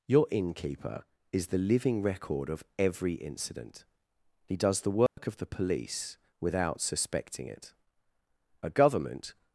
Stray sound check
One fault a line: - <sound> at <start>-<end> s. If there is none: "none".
- dropout at 5.1-5.2 s